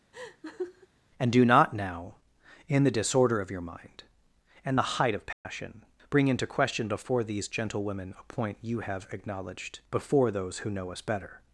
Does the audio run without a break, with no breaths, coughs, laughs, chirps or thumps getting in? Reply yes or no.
no